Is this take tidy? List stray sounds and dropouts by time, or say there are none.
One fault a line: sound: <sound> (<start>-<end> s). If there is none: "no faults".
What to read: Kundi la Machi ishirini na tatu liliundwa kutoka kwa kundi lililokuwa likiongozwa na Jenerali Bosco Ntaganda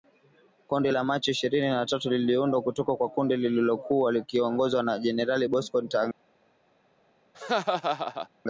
sound: laugh (7.3-8.3 s)